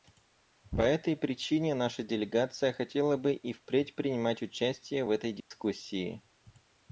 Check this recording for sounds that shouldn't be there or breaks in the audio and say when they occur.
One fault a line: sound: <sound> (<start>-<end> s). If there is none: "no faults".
sound: dropout (5.4-5.5 s)